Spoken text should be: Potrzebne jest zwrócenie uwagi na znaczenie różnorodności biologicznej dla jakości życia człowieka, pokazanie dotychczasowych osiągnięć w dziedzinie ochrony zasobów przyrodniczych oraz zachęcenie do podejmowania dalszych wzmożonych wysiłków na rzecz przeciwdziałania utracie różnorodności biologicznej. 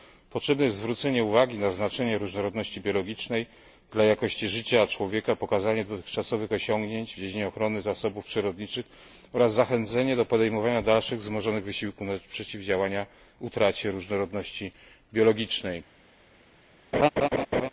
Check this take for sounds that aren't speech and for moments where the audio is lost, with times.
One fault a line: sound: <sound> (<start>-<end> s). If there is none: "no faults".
sound: laugh (16.9-17.7 s)